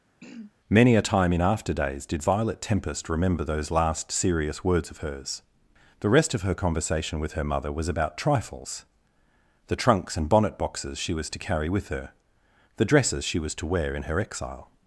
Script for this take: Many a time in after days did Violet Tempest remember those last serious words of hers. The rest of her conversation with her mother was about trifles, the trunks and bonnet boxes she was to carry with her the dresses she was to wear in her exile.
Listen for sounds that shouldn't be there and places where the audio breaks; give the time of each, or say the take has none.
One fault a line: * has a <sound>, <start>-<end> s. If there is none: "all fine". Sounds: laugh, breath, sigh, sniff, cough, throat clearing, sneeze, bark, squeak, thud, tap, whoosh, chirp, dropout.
* has a throat clearing, 0.2-0.5 s